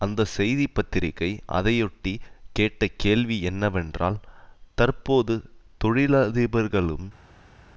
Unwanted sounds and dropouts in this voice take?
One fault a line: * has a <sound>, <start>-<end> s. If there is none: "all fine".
all fine